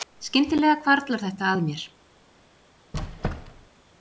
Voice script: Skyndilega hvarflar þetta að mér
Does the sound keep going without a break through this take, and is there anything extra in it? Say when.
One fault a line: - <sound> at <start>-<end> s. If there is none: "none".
- squeak at 2.9-3.7 s